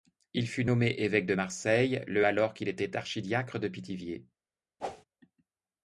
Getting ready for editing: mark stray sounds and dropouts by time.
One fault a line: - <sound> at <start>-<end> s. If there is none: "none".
- whoosh at 4.8-5.0 s